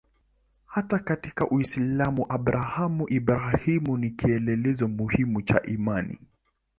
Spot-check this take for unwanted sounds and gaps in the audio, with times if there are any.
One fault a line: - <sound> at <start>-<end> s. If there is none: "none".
none